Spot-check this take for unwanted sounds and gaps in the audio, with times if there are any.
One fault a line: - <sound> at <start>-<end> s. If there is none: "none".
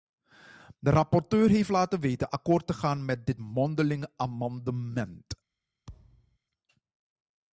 - thud at 5.9-6.4 s